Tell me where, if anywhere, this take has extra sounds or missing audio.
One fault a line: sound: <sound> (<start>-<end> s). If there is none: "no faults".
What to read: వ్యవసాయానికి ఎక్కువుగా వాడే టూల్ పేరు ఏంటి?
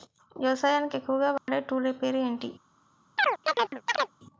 sound: dropout (1.4-1.5 s)
sound: chirp (3.2-4.1 s)